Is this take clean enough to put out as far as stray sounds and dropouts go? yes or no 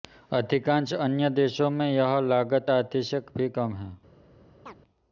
no